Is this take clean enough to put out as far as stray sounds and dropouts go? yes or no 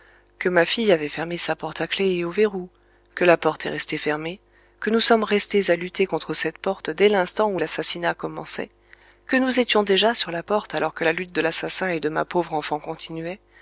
yes